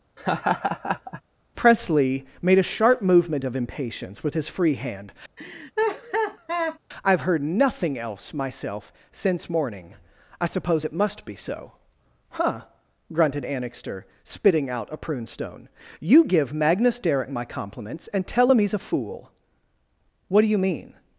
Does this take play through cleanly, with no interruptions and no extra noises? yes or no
no